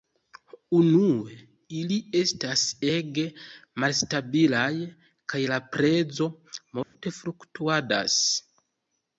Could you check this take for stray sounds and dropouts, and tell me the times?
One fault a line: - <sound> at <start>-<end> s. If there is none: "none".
- dropout at 6.8-6.9 s